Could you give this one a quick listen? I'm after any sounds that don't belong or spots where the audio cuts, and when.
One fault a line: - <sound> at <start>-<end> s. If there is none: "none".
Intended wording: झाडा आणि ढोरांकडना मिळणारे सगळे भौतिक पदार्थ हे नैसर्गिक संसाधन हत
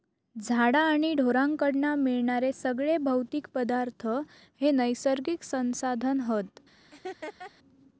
- laugh at 6.9-7.5 s